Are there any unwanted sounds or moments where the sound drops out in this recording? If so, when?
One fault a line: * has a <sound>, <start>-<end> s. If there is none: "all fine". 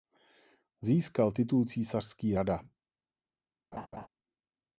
* has a laugh, 3.7-4.1 s